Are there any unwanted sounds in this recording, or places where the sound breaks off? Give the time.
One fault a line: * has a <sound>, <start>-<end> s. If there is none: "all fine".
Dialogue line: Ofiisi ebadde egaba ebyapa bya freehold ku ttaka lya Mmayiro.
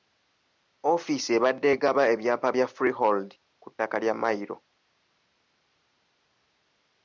all fine